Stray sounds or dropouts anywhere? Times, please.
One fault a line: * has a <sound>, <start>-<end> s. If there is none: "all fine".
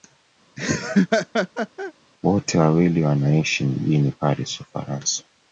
* has a laugh, 0.6-1.9 s